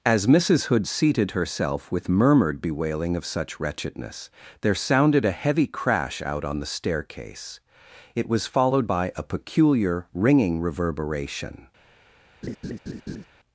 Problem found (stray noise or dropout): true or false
true